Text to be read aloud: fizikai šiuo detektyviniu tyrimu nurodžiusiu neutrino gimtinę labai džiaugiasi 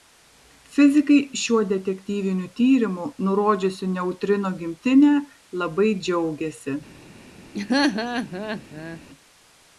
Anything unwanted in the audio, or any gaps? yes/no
yes